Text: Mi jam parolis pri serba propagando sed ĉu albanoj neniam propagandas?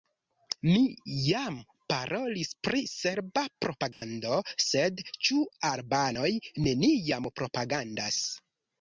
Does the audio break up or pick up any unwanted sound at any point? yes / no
yes